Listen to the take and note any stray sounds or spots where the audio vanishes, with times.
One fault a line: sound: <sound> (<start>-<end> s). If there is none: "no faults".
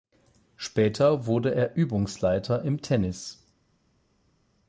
no faults